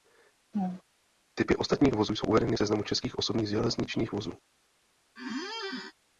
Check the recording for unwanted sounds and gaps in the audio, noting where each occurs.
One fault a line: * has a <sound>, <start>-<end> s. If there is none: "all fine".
* has a laugh, 0.5-0.8 s
* has a squeak, 5.2-5.9 s